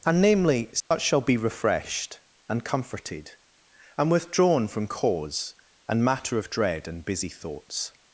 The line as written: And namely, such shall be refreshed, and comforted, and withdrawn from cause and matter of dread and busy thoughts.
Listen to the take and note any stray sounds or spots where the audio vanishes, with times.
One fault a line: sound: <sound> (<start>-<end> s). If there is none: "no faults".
sound: dropout (0.8-0.9 s)